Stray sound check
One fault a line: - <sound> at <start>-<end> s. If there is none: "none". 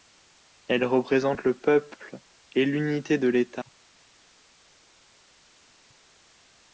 none